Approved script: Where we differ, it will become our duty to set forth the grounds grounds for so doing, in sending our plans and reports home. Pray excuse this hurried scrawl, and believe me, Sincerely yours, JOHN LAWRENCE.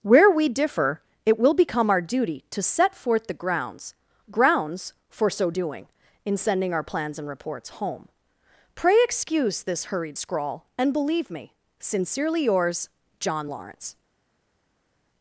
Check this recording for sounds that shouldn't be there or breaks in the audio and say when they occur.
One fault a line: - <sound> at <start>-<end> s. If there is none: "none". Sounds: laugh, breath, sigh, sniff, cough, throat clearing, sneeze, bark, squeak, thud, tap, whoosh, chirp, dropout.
none